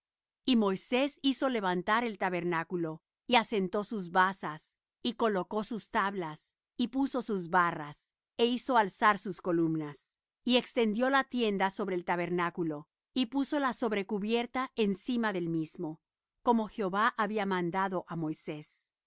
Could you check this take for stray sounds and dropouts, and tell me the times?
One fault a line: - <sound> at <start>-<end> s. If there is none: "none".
none